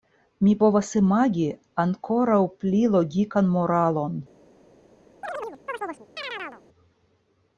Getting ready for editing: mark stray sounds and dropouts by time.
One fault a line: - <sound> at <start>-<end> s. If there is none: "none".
- chirp at 5.2-6.6 s